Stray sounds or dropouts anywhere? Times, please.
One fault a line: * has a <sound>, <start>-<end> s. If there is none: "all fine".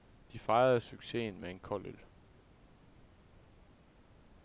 all fine